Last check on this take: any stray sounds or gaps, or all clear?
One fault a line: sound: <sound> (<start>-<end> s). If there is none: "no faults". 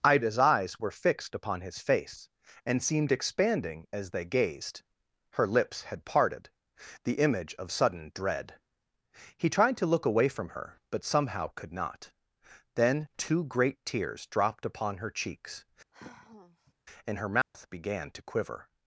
sound: sigh (15.9-16.7 s)
sound: dropout (17.4-17.5 s)